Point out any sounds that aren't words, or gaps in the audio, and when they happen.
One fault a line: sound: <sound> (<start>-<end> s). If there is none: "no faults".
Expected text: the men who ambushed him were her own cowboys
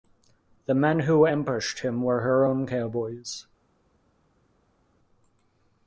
no faults